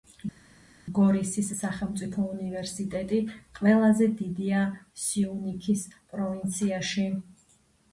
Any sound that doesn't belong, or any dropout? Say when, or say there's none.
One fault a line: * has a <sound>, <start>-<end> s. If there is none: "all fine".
all fine